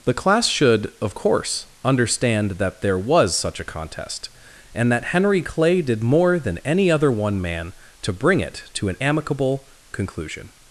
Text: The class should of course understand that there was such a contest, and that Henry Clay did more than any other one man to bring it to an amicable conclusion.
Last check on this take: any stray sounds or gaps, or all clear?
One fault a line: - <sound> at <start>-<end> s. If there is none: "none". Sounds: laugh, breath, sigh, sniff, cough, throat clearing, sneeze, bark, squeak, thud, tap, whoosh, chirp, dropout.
none